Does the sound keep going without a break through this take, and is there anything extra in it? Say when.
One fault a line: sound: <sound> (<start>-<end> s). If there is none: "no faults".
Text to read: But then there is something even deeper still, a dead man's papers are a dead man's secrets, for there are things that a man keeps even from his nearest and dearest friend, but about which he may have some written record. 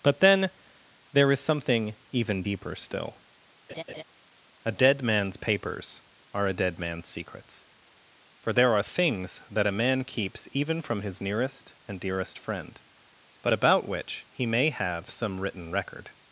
sound: laugh (3.7-4.0 s)